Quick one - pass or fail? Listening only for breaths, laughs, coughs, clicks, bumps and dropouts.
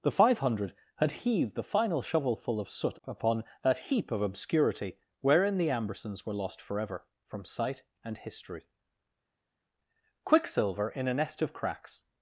pass